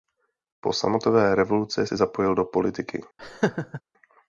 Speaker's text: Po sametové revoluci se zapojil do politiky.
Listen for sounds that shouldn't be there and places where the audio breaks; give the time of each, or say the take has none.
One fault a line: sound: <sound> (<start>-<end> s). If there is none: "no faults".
sound: laugh (3.2-3.8 s)